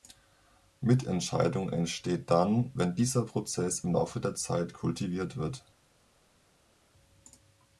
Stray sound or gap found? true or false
false